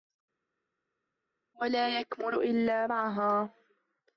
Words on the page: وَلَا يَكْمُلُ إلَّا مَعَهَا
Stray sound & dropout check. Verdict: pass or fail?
pass